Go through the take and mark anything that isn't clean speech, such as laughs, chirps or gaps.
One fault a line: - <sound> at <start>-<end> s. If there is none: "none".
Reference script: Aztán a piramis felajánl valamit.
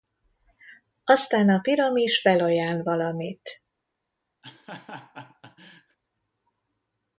- laugh at 4.4-6.0 s